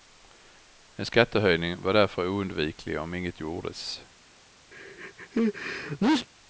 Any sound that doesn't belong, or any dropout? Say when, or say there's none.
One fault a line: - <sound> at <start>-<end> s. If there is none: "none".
- sneeze at 4.7-6.3 s